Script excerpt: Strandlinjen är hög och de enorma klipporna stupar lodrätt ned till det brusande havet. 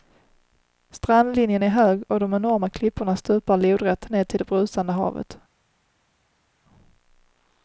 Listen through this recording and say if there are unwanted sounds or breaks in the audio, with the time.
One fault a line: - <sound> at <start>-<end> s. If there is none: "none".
none